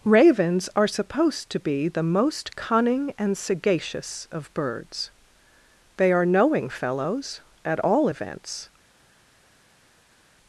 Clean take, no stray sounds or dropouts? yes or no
yes